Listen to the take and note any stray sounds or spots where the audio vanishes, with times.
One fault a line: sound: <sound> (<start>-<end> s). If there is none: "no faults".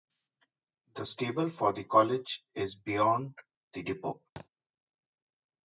sound: thud (4.4-4.5 s)